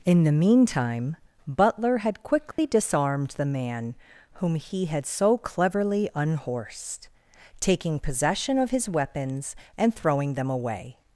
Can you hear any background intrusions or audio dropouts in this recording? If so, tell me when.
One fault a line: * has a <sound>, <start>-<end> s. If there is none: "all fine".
* has a dropout, 2.5-2.6 s